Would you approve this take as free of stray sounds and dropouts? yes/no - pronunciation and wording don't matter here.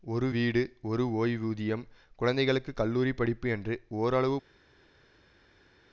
yes